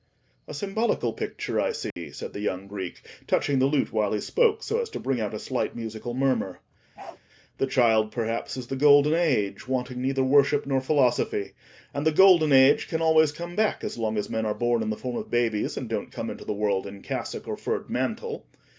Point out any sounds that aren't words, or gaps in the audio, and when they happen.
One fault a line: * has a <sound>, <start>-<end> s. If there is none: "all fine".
* has a dropout, 1.9-2.0 s
* has a bark, 7.0-7.2 s